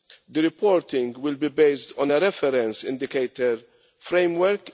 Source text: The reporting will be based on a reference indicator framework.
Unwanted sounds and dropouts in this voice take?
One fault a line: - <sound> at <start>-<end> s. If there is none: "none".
none